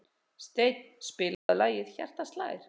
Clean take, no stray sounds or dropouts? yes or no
no